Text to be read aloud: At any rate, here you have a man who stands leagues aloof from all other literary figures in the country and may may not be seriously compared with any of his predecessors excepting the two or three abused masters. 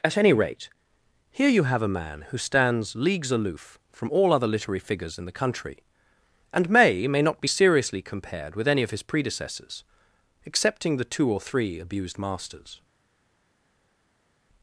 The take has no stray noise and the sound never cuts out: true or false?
true